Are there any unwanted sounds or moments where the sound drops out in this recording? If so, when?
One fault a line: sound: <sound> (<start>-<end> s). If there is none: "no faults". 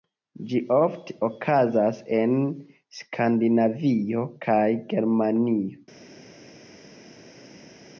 no faults